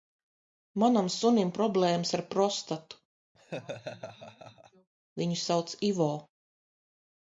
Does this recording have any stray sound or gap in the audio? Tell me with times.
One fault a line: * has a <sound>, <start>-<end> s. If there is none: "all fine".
* has a laugh, 3.3-4.9 s